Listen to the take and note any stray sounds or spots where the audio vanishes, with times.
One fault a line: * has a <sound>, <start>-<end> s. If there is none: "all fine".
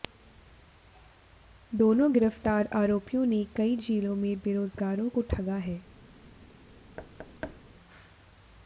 * has a thud, 7.0-7.6 s